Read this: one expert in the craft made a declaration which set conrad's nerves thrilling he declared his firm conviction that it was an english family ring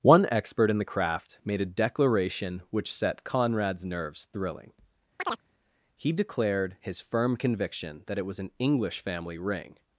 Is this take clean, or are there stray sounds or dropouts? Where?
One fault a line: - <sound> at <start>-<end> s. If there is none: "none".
- chirp at 5.2-5.4 s